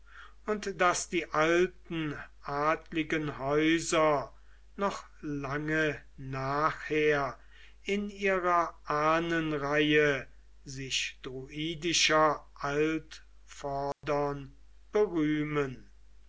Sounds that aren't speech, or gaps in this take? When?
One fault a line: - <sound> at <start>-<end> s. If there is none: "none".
- dropout at 13.9-14.0 s